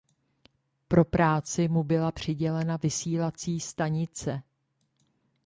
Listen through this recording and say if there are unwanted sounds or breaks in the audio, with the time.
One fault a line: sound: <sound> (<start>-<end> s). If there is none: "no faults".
no faults